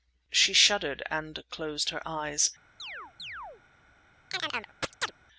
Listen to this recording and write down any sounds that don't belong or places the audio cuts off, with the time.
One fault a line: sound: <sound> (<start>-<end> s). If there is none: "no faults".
sound: chirp (2.8-3.6 s)
sound: chirp (4.3-5.1 s)